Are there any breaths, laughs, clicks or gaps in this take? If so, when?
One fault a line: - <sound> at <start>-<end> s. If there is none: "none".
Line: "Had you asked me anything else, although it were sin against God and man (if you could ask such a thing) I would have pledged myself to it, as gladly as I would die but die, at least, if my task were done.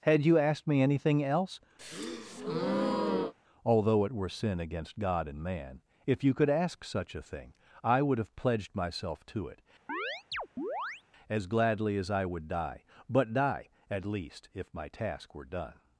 - breath at 1.8-3.3 s
- chirp at 9.9-11.0 s